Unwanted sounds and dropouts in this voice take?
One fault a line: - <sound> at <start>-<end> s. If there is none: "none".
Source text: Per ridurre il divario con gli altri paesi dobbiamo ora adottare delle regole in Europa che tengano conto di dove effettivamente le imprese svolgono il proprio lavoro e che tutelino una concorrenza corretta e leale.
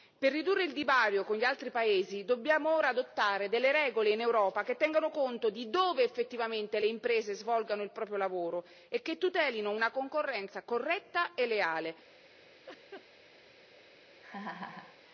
- laugh at 12.7-13.1 s
- laugh at 14.2-15.0 s